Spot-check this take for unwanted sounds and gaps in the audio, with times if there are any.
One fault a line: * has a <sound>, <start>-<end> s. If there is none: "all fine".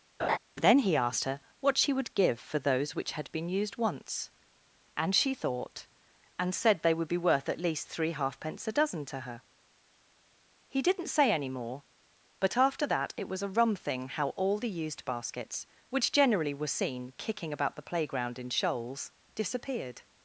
* has a laugh, 0.2-0.4 s